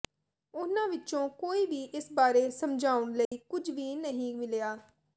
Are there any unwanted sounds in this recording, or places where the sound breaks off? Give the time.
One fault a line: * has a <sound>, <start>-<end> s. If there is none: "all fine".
* has a dropout, 3.2-3.3 s